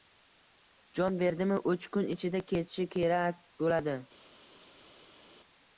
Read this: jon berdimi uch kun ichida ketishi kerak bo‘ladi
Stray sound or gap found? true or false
false